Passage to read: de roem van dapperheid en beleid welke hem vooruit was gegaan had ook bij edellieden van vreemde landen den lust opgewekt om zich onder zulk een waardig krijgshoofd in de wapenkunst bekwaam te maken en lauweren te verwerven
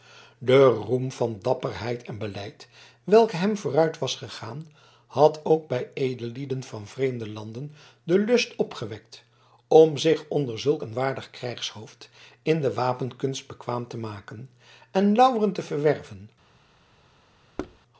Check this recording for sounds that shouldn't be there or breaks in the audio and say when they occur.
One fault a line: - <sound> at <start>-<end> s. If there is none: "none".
- thud at 17.6-17.8 s